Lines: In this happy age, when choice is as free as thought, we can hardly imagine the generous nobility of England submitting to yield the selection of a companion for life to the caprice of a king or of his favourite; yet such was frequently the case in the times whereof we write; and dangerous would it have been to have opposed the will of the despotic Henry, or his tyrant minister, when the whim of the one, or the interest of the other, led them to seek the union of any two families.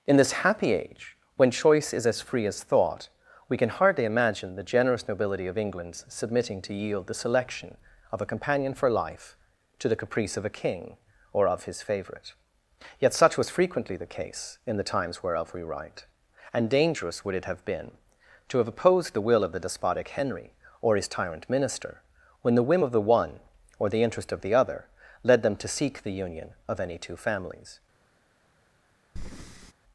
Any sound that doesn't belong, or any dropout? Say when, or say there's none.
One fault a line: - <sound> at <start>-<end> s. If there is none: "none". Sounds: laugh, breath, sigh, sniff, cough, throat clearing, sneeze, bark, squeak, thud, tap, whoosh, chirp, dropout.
- breath at 29.2-29.7 s